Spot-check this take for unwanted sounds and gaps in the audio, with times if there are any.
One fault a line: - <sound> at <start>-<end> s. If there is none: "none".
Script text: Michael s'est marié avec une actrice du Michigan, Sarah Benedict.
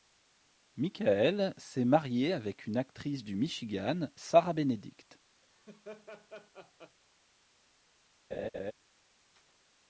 - laugh at 5.4-7.0 s
- laugh at 8.3-8.7 s